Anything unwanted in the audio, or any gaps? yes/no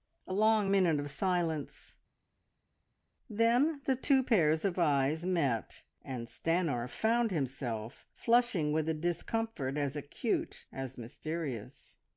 no